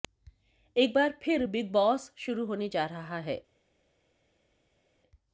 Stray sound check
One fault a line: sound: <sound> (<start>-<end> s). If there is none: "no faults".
no faults